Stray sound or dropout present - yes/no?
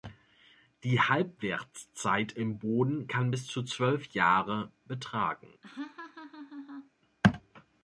yes